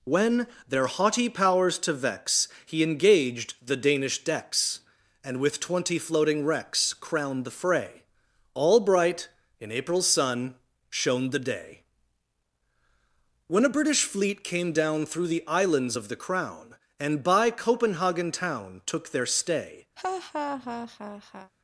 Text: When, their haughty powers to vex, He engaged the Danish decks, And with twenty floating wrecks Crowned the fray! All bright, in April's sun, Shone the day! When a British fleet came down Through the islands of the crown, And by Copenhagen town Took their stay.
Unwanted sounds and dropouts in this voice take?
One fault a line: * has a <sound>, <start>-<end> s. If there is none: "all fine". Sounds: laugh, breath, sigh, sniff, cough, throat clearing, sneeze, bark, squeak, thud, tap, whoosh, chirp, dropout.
* has a laugh, 20.0-21.5 s